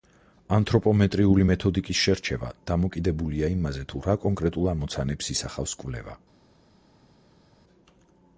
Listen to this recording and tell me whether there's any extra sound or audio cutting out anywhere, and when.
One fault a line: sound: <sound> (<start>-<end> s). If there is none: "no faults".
no faults